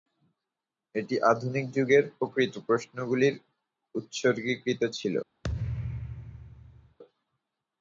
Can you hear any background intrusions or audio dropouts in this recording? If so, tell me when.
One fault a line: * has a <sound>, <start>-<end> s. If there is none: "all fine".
* has a thud, 5.4-7.0 s